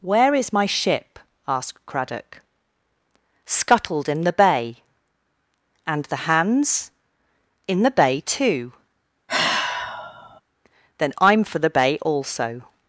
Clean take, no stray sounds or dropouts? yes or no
no